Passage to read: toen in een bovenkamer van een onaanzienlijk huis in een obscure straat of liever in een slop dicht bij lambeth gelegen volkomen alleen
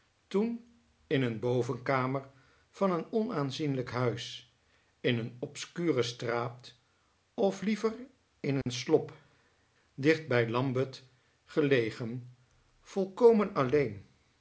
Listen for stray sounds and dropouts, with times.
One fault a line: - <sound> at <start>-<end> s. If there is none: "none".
- dropout at 8.6-8.7 s